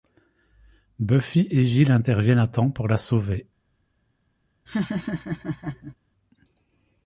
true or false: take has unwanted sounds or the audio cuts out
true